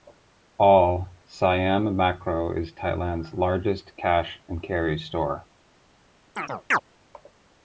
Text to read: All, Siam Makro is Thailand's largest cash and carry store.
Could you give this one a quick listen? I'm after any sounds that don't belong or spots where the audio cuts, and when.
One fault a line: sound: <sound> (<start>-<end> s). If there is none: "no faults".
sound: chirp (6.4-6.8 s)